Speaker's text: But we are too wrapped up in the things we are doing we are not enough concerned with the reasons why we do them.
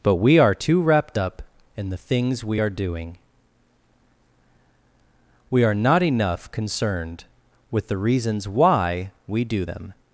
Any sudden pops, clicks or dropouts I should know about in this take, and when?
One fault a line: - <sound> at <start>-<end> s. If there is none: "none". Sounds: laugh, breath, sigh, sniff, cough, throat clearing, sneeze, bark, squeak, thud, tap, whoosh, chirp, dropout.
none